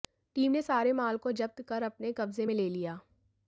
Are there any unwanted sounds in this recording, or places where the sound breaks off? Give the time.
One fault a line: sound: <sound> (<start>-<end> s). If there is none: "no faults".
no faults